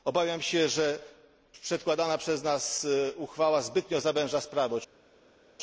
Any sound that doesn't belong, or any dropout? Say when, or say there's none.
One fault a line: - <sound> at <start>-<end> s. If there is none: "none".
none